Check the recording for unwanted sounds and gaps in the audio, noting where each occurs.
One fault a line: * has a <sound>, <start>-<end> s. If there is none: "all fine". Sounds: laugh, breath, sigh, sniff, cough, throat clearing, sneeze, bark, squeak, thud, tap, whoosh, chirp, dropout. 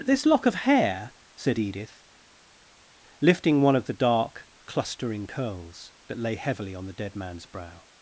all fine